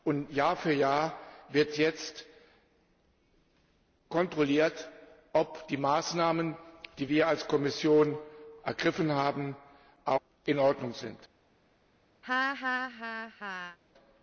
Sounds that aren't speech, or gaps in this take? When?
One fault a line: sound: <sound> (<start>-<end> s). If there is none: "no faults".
sound: laugh (12.2-13.8 s)